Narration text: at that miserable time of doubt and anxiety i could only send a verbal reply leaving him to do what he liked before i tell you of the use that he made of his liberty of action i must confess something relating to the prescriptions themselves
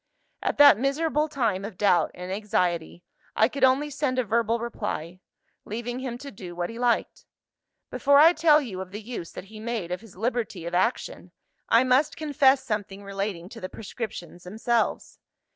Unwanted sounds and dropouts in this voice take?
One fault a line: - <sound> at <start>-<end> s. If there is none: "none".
none